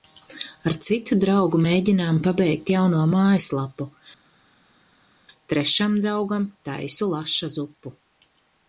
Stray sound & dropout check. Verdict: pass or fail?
pass